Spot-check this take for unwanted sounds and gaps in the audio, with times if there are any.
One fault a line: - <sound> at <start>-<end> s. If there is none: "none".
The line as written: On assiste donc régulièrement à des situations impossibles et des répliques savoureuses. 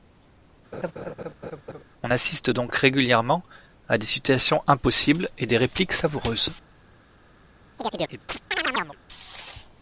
- laugh at 0.7-1.8 s
- chirp at 7.8-9.0 s